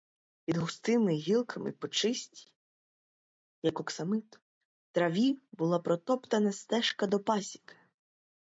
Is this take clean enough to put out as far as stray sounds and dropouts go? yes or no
yes